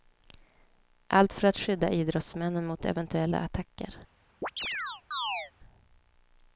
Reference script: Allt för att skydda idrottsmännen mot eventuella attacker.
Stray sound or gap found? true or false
true